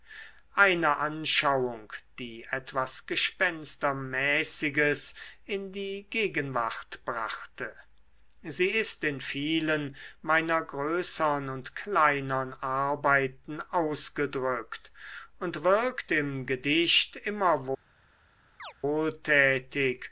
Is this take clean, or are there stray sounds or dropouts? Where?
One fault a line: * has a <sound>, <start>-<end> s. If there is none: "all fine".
* has a chirp, 18.6-18.7 s